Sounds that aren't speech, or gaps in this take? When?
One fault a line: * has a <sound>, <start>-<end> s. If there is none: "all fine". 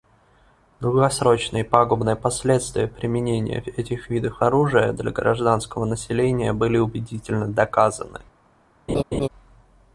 * has a laugh, 8.9-9.3 s